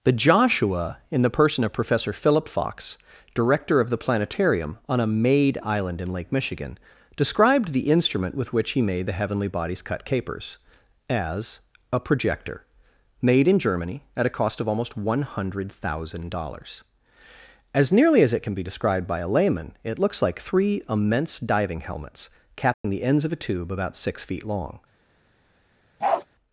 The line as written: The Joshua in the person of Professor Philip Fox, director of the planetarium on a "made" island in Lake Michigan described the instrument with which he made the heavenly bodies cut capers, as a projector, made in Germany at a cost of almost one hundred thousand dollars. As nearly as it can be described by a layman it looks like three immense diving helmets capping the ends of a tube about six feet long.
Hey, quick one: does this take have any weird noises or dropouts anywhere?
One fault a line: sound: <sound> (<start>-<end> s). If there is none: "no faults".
sound: dropout (22.7-22.8 s)
sound: bark (26.0-26.3 s)